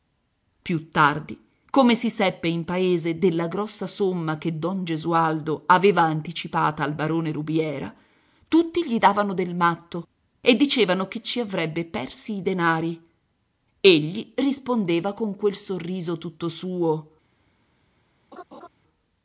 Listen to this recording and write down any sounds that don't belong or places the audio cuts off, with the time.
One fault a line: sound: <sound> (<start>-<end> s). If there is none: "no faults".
sound: laugh (18.3-18.7 s)